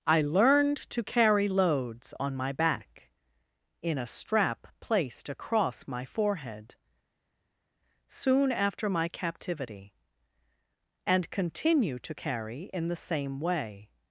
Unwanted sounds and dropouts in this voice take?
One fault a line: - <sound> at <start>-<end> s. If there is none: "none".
none